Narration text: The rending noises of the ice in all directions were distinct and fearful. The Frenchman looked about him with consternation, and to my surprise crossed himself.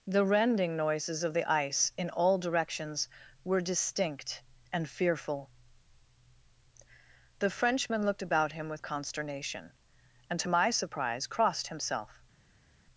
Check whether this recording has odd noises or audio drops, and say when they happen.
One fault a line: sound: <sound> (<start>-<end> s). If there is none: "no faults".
no faults